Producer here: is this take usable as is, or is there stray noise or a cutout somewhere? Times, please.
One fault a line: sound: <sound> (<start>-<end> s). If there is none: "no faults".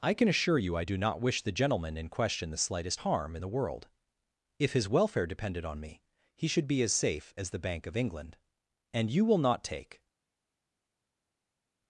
no faults